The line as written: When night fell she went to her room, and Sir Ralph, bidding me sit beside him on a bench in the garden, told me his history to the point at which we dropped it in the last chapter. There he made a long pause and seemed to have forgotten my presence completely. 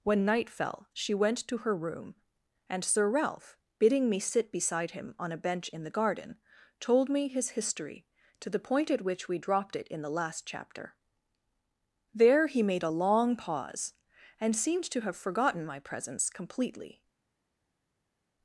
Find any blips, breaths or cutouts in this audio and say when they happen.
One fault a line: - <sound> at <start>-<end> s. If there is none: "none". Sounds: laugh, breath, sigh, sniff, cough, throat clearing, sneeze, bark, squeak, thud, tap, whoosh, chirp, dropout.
none